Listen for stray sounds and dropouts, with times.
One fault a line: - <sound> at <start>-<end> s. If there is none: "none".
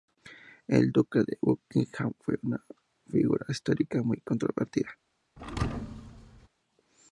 - thud at 5.4-6.5 s